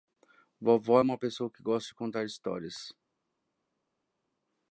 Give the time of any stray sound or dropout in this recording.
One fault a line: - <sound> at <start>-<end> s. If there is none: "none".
none